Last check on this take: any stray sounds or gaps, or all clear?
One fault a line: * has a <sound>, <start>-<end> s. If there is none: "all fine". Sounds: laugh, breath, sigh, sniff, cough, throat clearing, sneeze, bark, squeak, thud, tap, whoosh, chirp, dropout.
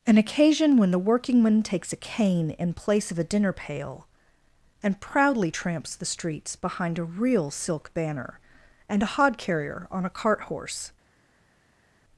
all fine